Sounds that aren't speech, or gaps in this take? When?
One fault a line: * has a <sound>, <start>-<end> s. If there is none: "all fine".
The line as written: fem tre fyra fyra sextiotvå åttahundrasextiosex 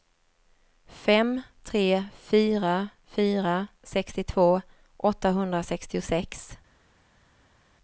all fine